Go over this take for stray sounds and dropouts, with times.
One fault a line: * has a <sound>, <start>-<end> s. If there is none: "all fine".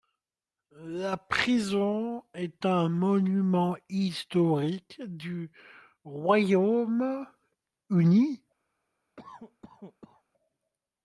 * has a cough, 9.2-10.2 s